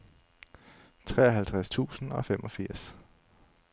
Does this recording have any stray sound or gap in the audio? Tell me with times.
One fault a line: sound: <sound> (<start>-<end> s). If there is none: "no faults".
no faults